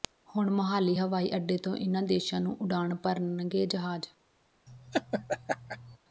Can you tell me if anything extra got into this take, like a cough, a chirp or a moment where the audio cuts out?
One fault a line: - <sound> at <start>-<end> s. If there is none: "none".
- laugh at 4.7-6.0 s